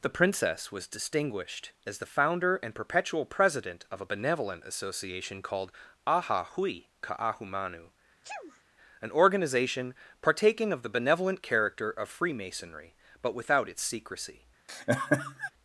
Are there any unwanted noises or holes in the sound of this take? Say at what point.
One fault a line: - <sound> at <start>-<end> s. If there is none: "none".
- sneeze at 8.2-8.6 s
- laugh at 14.7-15.5 s